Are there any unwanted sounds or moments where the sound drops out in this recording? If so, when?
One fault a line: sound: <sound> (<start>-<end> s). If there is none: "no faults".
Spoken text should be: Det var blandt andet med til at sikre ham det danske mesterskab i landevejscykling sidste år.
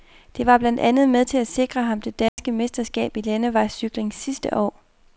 sound: dropout (2.3-2.4 s)